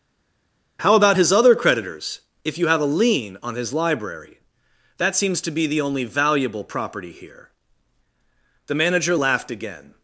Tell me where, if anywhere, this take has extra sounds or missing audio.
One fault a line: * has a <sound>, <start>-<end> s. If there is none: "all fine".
all fine